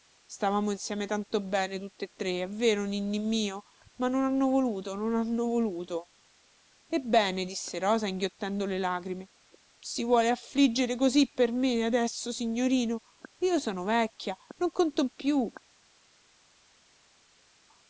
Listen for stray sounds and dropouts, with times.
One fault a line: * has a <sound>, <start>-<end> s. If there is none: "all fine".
all fine